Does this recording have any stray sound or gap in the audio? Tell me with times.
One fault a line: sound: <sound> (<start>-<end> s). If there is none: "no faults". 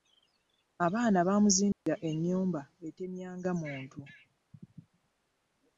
sound: dropout (1.7-1.9 s)